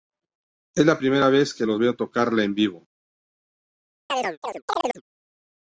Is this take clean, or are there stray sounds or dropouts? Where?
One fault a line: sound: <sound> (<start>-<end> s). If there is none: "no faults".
sound: chirp (4.1-5.0 s)